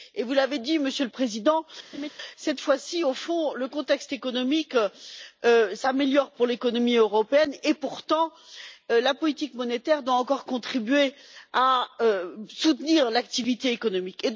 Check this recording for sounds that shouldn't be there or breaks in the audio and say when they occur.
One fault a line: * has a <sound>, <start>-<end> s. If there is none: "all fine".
* has a laugh, 1.9-2.1 s